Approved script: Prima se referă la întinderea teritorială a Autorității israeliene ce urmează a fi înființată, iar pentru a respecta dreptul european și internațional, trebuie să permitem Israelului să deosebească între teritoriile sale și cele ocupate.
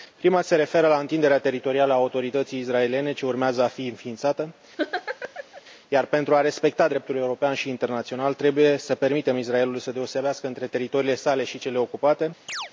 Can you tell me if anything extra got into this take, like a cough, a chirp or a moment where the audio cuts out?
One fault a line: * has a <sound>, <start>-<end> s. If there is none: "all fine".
* has a laugh, 4.8-5.6 s
* has a chirp, 12.5-12.7 s